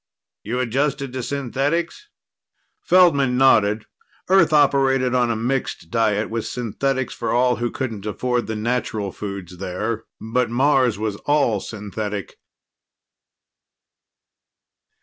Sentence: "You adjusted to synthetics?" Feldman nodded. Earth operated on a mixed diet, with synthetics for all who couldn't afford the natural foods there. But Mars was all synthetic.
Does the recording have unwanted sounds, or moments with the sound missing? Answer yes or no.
no